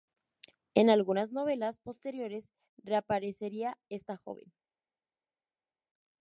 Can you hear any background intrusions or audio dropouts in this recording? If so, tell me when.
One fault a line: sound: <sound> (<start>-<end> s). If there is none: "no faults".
no faults